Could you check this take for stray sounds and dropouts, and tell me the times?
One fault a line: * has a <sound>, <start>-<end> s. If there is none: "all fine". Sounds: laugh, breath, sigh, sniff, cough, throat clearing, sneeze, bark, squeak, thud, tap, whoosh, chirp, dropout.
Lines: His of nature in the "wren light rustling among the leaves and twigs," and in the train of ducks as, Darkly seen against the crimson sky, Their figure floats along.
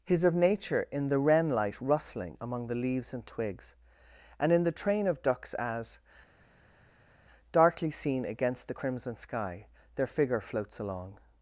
all fine